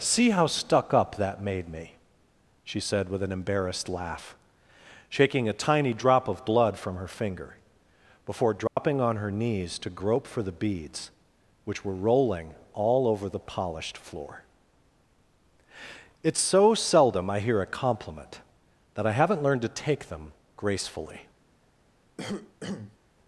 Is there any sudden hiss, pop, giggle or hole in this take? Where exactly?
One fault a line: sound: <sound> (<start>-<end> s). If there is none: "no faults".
sound: dropout (8.7-8.8 s)
sound: cough (22.2-23.0 s)